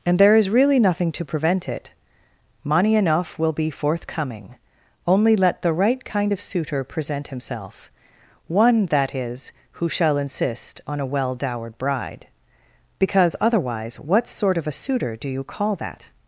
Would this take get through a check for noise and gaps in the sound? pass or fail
pass